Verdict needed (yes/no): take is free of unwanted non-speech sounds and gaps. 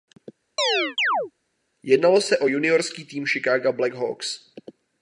no